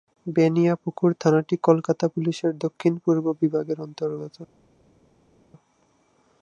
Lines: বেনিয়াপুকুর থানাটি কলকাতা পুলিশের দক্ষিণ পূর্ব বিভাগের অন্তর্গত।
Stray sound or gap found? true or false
false